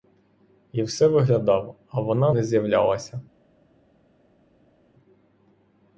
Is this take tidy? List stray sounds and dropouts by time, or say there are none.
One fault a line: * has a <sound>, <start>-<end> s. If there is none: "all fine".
all fine